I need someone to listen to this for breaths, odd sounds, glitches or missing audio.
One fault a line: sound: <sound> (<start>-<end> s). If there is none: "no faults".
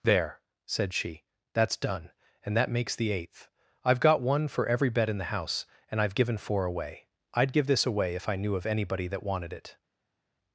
no faults